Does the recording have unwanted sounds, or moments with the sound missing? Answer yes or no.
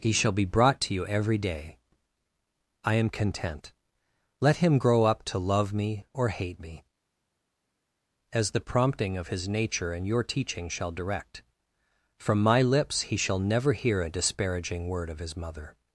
no